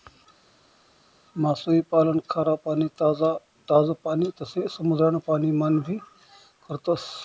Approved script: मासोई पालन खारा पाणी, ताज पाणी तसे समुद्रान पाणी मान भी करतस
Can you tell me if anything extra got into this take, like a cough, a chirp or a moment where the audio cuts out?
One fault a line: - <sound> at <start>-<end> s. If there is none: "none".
none